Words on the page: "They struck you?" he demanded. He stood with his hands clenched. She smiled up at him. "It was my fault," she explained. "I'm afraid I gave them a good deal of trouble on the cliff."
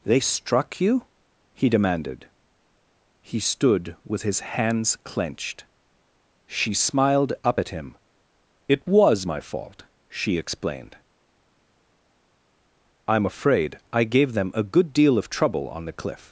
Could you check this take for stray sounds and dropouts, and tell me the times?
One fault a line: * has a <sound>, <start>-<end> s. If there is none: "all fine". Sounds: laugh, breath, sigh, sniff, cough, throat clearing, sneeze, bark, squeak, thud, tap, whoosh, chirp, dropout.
all fine